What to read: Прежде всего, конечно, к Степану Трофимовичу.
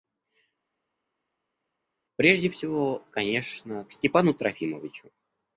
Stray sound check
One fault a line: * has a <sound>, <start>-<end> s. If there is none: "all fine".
all fine